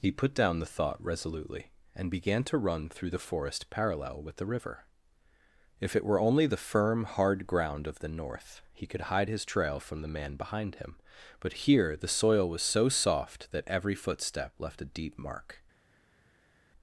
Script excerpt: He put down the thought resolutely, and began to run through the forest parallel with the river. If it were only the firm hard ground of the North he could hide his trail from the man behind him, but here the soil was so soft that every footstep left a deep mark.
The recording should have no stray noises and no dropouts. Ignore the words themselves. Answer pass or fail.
pass